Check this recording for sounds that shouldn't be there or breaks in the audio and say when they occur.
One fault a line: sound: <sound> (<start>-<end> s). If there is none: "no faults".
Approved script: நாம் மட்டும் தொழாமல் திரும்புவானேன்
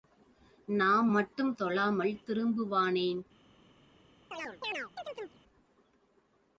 sound: chirp (4.3-5.4 s)